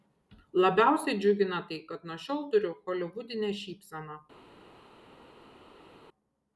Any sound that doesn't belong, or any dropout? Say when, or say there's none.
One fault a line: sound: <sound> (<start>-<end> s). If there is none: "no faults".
no faults